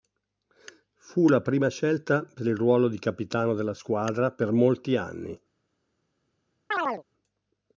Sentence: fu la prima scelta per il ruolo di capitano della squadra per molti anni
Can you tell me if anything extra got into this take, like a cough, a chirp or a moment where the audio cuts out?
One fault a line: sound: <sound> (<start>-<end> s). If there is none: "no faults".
sound: chirp (6.7-7.0 s)